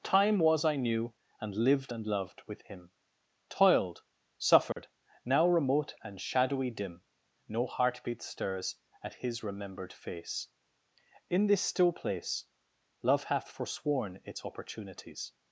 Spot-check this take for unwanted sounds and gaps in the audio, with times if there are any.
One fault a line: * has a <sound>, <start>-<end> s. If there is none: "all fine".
* has a dropout, 4.7-4.8 s